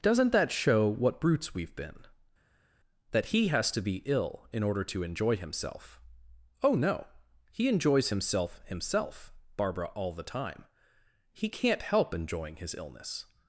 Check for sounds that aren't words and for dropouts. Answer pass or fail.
pass